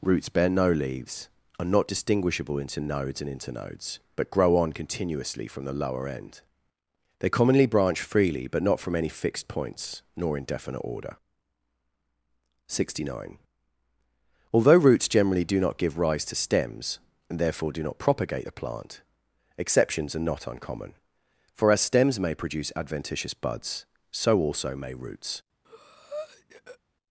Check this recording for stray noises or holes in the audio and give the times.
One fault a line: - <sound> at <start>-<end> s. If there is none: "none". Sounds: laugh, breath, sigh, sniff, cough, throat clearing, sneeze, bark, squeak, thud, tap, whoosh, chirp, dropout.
- breath at 25.6-26.8 s